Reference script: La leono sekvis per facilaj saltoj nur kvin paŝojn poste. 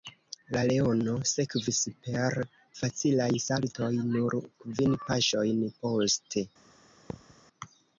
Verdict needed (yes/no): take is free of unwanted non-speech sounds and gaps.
no